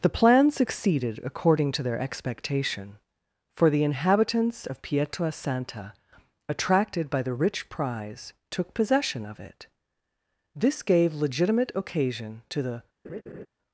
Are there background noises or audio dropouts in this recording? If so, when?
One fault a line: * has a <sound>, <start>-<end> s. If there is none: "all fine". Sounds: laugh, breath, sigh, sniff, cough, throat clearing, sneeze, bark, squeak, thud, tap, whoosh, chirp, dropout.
* has a laugh, 13.0-13.5 s